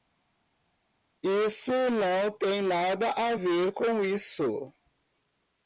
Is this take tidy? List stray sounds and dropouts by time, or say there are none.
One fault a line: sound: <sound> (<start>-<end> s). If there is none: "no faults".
no faults